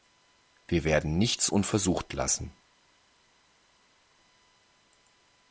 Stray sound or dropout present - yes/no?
no